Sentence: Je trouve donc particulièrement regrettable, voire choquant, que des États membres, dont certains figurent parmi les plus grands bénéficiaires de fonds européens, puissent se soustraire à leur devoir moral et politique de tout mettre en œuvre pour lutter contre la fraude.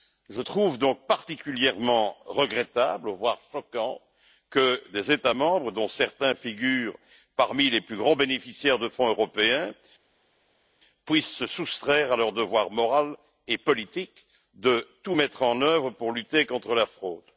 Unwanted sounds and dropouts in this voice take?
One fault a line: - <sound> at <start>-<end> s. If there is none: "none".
none